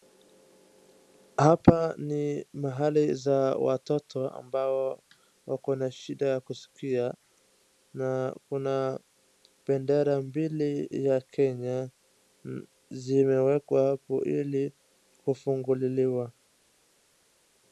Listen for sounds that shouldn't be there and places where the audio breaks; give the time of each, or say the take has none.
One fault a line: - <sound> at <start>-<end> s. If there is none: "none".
none